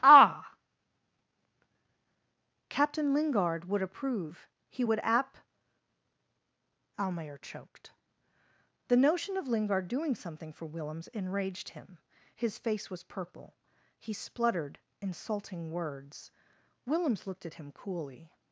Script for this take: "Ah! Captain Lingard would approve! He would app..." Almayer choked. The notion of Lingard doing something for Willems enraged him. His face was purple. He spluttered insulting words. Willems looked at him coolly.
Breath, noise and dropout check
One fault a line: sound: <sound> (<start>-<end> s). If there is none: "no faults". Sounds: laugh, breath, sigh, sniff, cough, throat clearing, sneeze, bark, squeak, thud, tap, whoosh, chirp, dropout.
no faults